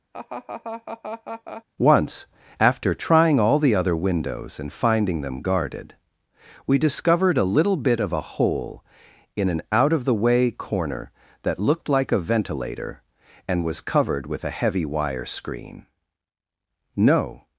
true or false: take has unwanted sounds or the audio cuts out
true